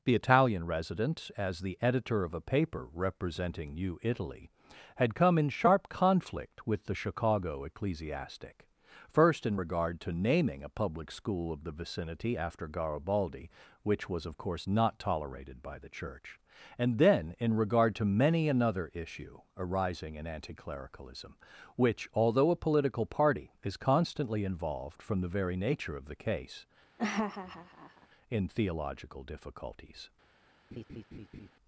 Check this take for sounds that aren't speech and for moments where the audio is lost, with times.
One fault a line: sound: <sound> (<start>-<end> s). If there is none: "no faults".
sound: laugh (27.0-28.1 s)
sound: laugh (30.7-31.5 s)